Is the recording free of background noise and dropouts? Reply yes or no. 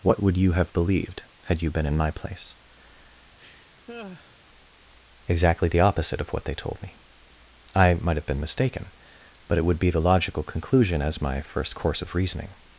no